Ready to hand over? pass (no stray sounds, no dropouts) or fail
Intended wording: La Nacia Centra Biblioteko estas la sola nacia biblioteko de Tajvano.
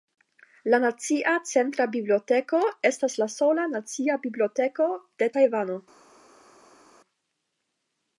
pass